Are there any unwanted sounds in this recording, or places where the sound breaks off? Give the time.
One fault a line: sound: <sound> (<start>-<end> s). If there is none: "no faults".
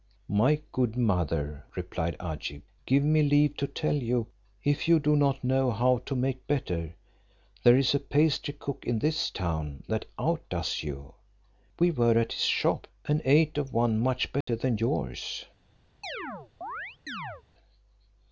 sound: dropout (14.4-14.5 s)
sound: chirp (16.0-17.4 s)